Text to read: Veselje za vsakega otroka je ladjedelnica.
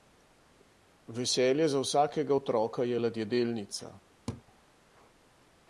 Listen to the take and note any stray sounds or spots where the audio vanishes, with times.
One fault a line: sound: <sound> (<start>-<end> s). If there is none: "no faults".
sound: laugh (4.3-4.4 s)